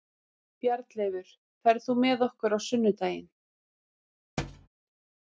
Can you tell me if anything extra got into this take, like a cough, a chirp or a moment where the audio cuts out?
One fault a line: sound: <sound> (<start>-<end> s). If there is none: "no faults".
sound: thud (4.4-4.7 s)